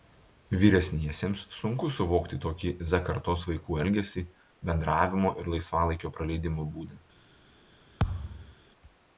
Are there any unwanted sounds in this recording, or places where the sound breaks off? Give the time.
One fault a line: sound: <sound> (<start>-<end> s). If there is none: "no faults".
sound: thud (8.0-8.5 s)